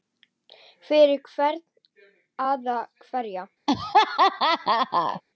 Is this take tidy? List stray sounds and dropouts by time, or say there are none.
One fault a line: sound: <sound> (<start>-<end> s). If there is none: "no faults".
sound: laugh (3.7-5.2 s)